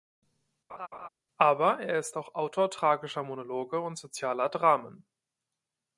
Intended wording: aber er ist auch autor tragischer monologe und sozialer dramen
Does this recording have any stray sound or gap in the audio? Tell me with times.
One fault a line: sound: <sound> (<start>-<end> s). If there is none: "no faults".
sound: laugh (0.7-1.1 s)